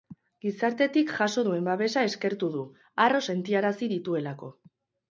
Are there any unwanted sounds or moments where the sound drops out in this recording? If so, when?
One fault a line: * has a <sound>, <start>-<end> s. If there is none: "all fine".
all fine